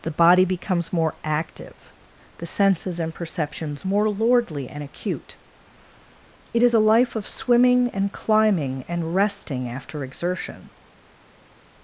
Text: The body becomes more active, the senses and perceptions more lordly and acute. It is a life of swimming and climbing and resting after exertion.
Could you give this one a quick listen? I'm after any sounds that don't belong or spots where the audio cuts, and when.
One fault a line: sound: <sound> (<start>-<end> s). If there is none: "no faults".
no faults